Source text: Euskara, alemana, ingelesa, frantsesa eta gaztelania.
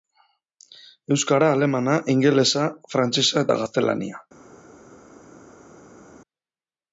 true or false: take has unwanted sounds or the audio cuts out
false